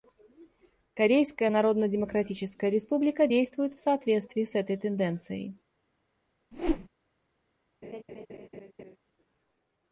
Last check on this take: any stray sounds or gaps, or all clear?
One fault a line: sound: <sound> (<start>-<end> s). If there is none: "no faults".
sound: whoosh (6.5-6.9 s)
sound: laugh (7.8-9.0 s)